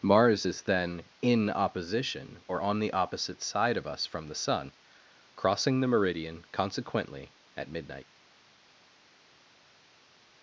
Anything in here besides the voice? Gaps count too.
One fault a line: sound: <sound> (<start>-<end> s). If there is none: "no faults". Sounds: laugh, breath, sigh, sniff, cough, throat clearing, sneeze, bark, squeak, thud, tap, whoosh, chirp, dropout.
no faults